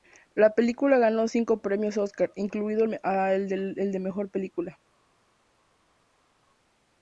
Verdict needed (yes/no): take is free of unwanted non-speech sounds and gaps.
yes